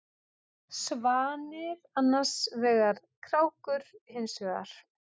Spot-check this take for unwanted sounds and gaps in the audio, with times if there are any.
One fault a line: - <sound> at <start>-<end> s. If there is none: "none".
none